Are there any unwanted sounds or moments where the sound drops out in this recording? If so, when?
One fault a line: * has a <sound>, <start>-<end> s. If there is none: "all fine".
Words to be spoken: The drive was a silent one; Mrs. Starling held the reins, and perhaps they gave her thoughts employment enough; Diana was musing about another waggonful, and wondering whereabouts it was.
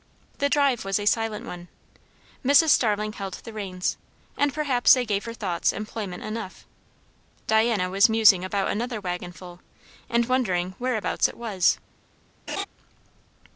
* has a laugh, 12.5-12.7 s